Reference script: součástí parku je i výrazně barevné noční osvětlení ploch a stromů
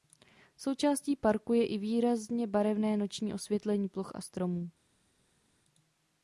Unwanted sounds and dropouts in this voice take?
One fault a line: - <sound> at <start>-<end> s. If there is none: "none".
none